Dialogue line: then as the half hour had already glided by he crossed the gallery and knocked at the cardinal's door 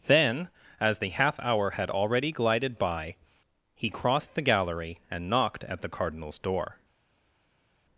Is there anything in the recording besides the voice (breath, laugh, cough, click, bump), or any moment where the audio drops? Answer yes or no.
no